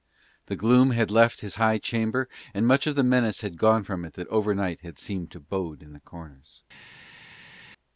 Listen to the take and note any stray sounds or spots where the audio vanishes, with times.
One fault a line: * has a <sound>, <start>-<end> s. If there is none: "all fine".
all fine